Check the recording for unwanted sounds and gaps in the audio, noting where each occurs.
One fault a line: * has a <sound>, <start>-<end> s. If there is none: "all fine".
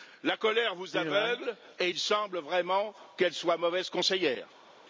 all fine